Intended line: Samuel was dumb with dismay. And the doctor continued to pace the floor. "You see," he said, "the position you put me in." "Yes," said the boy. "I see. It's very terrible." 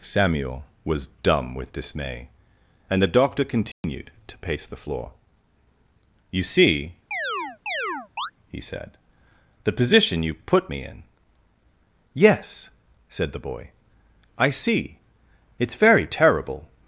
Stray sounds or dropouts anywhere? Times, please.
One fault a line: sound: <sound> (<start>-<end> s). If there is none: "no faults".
sound: dropout (3.7-3.8 s)
sound: chirp (7.1-8.3 s)